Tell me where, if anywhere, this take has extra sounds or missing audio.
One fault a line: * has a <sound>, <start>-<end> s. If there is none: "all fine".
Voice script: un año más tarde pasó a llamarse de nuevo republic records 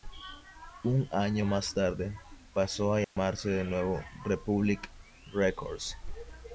* has a dropout, 3.0-3.2 s